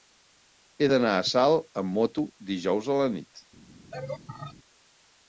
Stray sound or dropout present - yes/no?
yes